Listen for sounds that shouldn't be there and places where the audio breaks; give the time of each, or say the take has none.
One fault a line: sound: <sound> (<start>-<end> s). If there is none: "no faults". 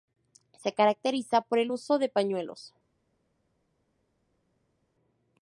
no faults